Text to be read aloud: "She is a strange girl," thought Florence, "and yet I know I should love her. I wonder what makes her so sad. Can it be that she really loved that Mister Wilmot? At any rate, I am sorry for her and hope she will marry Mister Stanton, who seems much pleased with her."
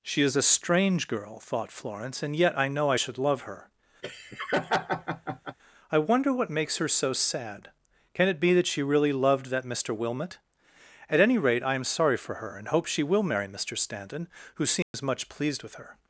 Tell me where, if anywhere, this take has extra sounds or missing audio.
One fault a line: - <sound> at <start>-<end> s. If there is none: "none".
- laugh at 4.0-5.6 s
- dropout at 14.8-14.9 s